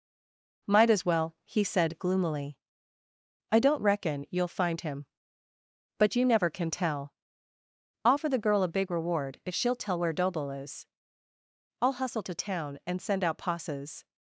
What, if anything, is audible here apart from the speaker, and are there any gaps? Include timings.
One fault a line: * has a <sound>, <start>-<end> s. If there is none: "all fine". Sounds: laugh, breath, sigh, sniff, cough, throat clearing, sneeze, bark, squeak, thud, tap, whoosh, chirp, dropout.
all fine